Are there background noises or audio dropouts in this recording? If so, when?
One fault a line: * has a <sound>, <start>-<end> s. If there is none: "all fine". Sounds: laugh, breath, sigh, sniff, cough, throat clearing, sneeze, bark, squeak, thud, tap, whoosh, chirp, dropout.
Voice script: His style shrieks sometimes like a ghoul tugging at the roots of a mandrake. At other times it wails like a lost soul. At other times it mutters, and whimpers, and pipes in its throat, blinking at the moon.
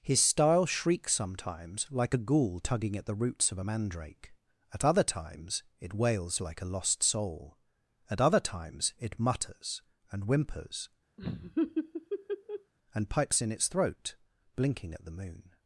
* has a laugh, 11.2-12.7 s